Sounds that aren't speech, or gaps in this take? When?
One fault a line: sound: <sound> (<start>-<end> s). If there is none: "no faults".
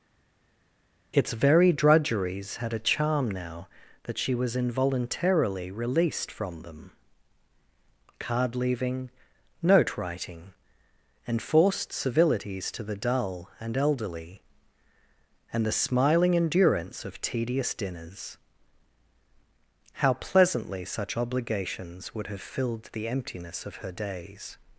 no faults